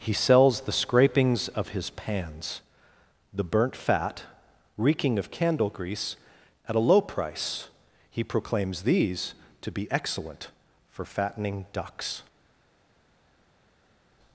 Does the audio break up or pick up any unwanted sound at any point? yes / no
no